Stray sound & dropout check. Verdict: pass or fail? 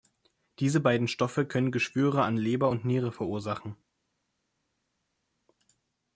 pass